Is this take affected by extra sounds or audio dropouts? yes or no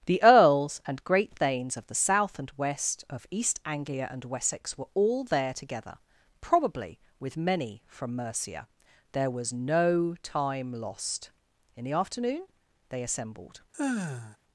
yes